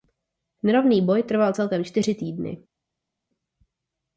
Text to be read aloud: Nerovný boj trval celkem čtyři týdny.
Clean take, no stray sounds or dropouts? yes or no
yes